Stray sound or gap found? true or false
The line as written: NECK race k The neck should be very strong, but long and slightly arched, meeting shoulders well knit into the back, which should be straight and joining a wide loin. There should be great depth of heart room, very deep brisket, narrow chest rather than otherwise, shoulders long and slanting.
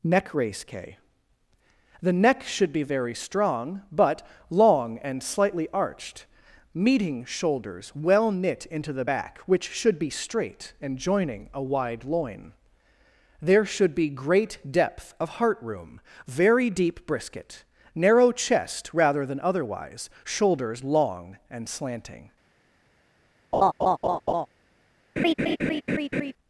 true